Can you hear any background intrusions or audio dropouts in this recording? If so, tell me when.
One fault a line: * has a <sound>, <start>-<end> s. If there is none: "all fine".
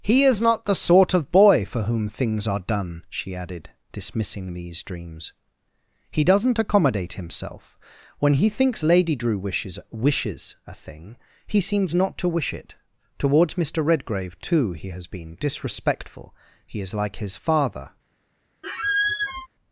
* has a squeak, 18.6-19.5 s